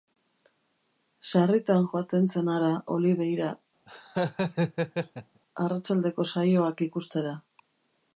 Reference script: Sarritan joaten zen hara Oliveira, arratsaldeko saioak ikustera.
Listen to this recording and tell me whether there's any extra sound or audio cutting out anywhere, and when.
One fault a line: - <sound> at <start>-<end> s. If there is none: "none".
- laugh at 3.9-5.4 s